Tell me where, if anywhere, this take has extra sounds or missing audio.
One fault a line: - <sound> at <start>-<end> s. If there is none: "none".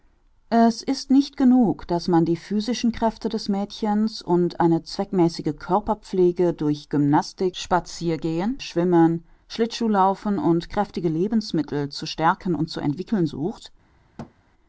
- thud at 14.2-14.3 s